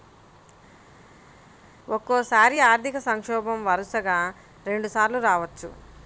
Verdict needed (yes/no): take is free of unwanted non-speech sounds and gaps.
yes